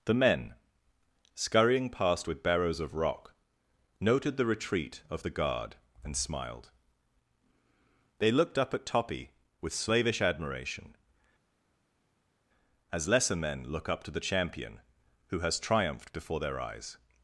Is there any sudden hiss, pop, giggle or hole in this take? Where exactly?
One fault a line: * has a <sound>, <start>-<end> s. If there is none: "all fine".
all fine